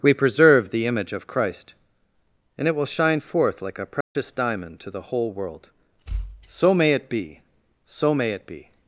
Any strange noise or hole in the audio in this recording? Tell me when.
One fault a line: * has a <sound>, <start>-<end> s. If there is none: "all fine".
* has a dropout, 4.0-4.2 s